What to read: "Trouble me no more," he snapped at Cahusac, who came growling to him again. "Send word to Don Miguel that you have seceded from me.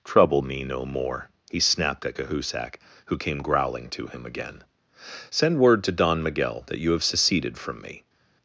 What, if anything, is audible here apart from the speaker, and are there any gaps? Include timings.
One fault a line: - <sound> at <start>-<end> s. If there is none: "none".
none